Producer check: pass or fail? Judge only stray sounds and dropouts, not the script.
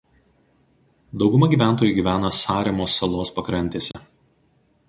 fail